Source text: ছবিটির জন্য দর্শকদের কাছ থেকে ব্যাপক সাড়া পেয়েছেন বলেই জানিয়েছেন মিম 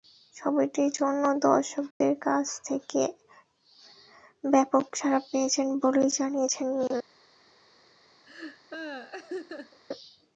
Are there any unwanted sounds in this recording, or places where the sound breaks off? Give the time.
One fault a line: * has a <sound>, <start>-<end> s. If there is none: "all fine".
* has a dropout, 1.9-2.0 s
* has a laugh, 8.2-9.8 s